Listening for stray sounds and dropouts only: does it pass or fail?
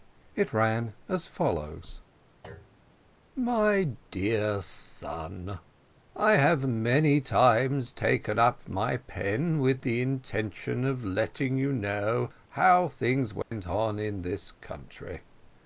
fail